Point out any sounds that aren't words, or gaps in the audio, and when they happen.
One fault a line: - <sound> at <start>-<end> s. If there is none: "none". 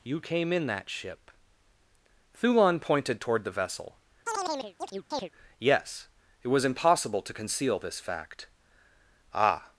- chirp at 4.3-5.3 s